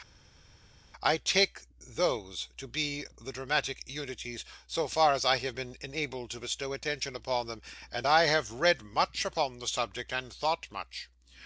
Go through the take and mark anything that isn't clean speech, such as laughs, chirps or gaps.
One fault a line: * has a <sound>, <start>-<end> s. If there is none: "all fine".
all fine